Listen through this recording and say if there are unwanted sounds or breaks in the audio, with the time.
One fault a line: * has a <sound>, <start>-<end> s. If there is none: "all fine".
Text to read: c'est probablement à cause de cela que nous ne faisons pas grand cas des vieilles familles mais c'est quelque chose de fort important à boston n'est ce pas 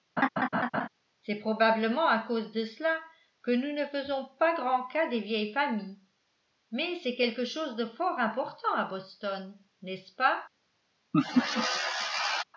* has a laugh, 0.2-0.9 s
* has a laugh, 11.1-12.4 s